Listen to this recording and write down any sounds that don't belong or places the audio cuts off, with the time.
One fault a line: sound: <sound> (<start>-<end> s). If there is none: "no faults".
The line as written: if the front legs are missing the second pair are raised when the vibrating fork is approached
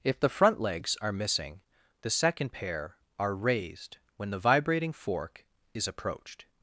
no faults